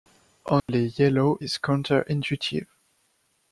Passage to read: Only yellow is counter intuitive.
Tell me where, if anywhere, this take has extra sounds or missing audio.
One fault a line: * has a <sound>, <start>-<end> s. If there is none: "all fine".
* has a dropout, 0.6-0.7 s